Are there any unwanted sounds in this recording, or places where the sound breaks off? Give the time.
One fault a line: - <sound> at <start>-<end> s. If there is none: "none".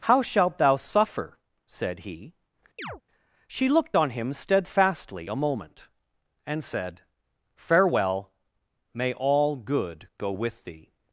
- chirp at 2.8-3.0 s